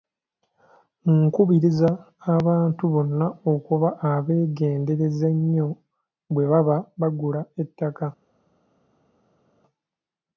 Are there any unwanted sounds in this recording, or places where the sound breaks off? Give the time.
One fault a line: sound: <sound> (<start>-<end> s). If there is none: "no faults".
no faults